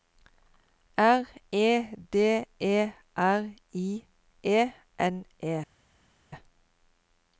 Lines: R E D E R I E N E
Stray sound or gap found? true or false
false